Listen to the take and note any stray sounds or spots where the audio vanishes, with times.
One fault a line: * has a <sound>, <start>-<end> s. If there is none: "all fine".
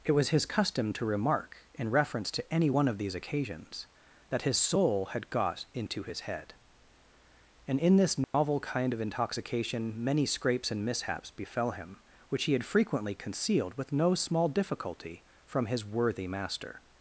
* has a dropout, 8.2-8.3 s